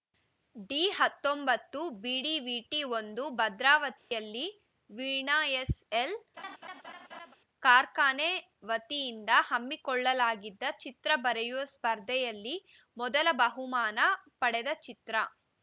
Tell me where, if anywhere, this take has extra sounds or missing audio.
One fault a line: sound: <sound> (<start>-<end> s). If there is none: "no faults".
sound: dropout (4.0-4.1 s)
sound: laugh (6.4-7.3 s)